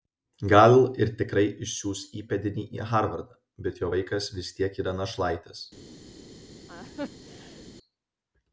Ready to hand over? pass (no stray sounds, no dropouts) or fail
fail